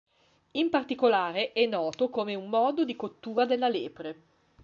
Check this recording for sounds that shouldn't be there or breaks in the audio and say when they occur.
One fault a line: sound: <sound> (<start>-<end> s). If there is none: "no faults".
no faults